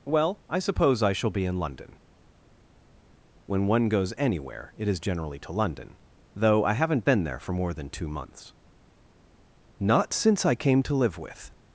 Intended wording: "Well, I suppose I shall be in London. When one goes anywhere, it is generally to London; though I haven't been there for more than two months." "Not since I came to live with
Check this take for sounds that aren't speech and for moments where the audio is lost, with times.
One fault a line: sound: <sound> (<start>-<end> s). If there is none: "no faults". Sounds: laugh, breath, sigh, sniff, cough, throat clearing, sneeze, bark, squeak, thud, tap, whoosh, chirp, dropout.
no faults